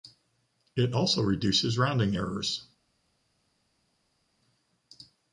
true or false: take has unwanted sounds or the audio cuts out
false